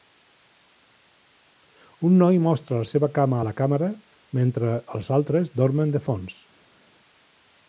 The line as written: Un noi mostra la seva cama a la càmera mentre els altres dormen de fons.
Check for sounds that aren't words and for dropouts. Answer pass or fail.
pass